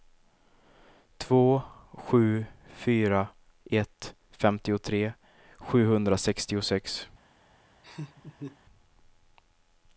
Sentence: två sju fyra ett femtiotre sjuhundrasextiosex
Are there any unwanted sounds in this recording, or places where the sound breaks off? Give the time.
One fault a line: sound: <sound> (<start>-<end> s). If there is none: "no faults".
sound: laugh (7.8-8.6 s)